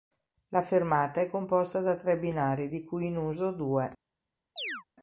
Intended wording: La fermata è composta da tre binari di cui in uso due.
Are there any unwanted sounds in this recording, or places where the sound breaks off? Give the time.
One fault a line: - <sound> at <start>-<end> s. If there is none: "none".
- chirp at 4.6-4.8 s